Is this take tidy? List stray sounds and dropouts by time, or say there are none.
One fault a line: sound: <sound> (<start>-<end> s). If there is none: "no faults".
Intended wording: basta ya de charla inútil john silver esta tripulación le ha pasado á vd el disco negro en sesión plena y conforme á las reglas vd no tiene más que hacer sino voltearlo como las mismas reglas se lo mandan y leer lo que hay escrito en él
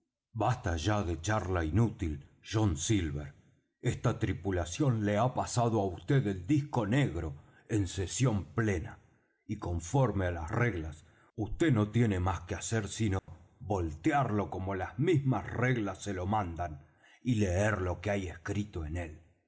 sound: dropout (13.2-13.3 s)